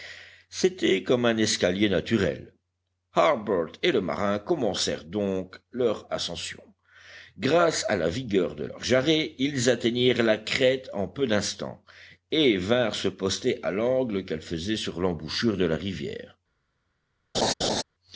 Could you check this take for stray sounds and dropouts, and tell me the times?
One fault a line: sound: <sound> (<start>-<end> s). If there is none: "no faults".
sound: laugh (17.3-17.8 s)